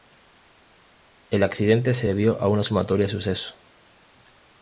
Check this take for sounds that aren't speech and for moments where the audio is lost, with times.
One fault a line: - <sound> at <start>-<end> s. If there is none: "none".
none